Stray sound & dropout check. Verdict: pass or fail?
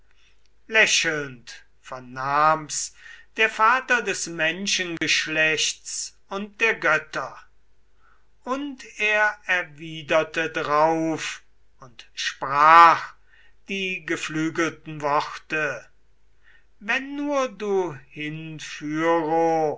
fail